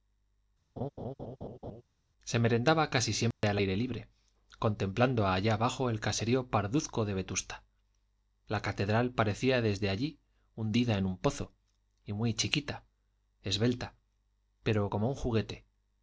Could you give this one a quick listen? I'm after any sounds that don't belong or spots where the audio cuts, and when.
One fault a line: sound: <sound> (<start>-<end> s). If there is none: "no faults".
sound: laugh (0.8-1.8 s)
sound: dropout (3.3-3.4 s)